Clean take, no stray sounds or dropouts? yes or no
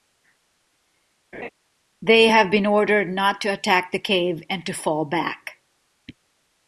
no